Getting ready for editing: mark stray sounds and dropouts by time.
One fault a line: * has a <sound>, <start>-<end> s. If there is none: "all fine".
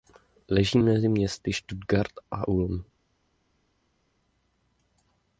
all fine